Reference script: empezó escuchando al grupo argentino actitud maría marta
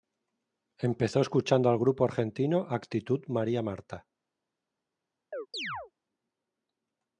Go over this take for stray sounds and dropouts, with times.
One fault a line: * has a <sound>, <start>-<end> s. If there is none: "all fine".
* has a chirp, 5.3-5.9 s